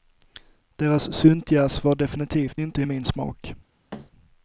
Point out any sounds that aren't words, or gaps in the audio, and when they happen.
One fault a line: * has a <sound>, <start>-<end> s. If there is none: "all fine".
* has a thud, 3.9-4.1 s